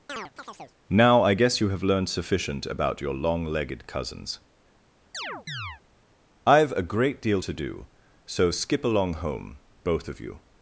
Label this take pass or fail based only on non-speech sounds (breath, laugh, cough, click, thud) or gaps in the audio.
fail